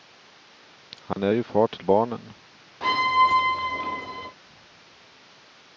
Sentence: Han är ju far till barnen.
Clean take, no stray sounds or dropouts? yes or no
no